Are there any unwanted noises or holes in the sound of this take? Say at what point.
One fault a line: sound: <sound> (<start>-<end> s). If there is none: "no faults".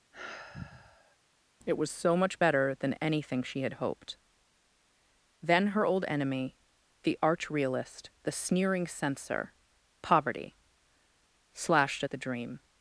sound: sigh (0.1-1.2 s)